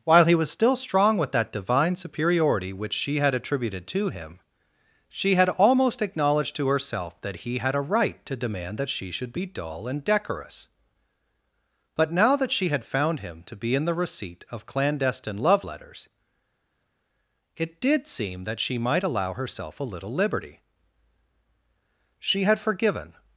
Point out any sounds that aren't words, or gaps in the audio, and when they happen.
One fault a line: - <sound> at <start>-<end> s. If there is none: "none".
none